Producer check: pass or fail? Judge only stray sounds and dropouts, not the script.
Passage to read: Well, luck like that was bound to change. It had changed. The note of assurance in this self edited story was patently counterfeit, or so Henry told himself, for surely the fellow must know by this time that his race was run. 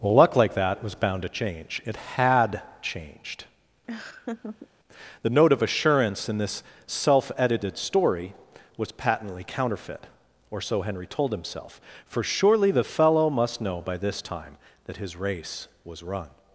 fail